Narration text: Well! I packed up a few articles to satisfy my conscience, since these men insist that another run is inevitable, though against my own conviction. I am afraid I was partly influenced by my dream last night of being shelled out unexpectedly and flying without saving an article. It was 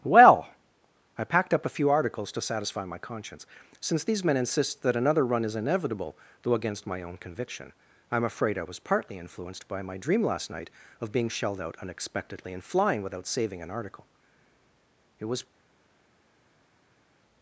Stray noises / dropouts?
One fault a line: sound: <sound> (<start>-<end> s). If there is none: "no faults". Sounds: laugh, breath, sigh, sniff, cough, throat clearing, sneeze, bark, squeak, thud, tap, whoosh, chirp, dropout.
no faults